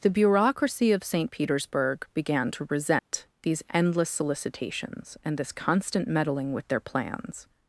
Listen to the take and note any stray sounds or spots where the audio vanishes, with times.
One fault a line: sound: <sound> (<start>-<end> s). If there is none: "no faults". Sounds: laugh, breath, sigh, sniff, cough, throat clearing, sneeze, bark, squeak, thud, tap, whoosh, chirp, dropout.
sound: dropout (3.0-3.1 s)